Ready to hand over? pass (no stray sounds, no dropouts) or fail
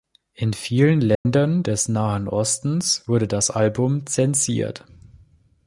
fail